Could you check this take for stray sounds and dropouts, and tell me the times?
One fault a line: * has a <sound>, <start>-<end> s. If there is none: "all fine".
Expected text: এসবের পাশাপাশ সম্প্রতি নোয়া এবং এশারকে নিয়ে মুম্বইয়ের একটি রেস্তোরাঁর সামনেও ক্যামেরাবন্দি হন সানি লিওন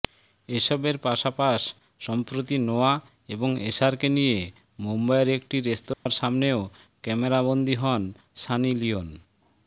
* has a dropout, 5.9-6.1 s